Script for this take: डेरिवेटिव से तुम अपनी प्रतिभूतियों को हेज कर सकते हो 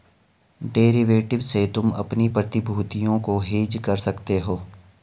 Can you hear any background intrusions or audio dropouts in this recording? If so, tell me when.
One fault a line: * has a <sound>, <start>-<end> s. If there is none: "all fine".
all fine